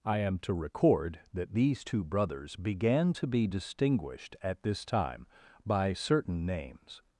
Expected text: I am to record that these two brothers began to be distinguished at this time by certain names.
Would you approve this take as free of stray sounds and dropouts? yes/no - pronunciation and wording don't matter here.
yes